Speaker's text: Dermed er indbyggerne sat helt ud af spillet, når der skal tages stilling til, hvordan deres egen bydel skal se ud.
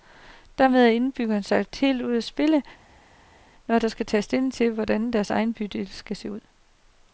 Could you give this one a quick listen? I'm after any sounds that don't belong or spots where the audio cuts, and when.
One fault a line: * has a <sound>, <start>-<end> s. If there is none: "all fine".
all fine